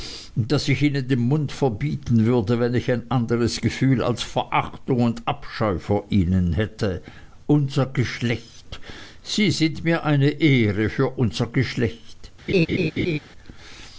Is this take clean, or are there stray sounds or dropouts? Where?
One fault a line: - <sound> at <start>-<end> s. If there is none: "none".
- laugh at 12.5-13.2 s